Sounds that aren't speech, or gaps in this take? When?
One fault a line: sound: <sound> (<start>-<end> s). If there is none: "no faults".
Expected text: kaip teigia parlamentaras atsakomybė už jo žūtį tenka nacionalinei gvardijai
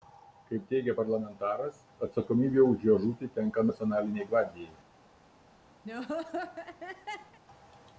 sound: laugh (5.8-7.4 s)